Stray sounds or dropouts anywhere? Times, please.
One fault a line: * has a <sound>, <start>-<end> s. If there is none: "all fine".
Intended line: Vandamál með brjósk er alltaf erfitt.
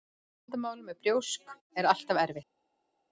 all fine